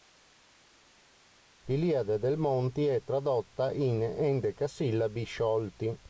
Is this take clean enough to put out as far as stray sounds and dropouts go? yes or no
yes